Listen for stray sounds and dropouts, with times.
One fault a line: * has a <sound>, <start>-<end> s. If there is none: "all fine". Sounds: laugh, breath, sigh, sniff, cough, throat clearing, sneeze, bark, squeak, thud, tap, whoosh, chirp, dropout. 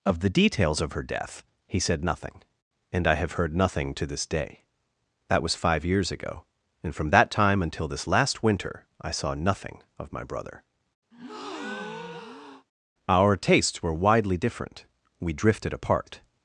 * has a breath, 11.1-12.7 s